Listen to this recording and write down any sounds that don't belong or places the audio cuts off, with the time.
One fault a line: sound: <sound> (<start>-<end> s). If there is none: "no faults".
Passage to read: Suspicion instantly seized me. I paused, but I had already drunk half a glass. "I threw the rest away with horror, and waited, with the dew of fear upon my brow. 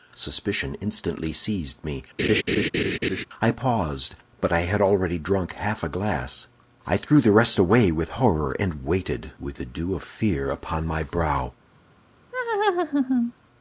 sound: laugh (2.2-3.2 s)
sound: laugh (12.3-13.3 s)